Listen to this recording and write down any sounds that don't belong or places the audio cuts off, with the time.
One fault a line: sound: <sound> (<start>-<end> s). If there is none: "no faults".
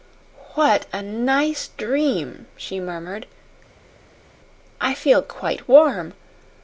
no faults